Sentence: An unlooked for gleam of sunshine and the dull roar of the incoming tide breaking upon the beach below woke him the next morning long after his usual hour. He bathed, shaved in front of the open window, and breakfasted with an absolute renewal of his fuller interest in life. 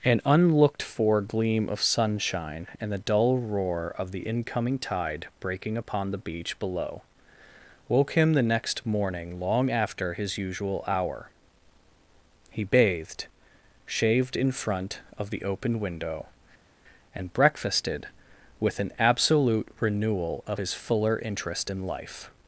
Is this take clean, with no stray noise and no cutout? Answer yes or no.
yes